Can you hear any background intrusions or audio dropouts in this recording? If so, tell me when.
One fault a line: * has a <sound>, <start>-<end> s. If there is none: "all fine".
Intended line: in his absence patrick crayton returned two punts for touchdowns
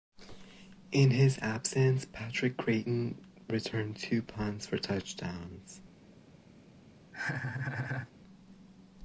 * has a laugh, 7.1-8.1 s